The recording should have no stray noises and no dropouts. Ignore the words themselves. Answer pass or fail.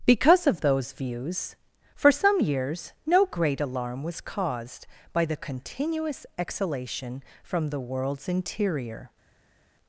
pass